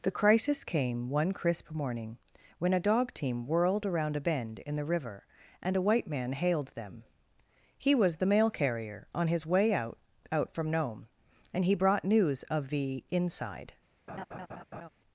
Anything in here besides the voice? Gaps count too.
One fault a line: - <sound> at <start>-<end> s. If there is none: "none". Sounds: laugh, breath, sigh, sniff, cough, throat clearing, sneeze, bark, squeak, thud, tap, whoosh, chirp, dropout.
- laugh at 14.1-14.9 s